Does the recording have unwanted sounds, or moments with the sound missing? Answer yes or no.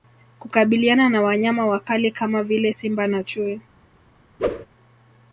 yes